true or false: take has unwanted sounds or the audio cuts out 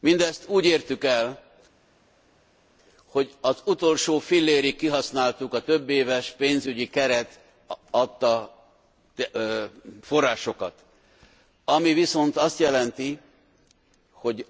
false